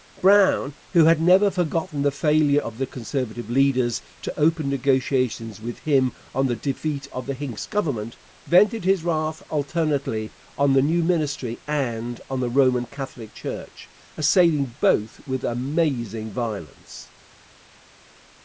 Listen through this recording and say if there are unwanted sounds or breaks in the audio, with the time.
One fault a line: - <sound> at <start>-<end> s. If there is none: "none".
none